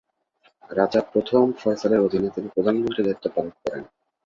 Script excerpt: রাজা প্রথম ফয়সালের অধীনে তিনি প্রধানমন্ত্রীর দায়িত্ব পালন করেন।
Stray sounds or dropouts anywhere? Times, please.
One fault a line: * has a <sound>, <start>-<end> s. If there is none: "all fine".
all fine